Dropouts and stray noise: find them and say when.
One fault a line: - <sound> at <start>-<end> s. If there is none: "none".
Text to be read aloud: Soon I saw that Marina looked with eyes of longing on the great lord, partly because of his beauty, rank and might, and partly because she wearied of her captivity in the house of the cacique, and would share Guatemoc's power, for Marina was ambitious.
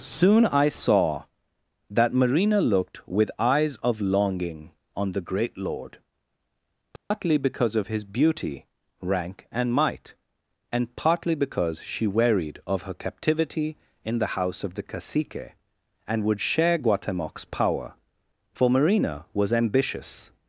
- dropout at 7.0-7.1 s